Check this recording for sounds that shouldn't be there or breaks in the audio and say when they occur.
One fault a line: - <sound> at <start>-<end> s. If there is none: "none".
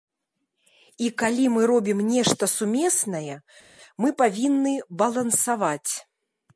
none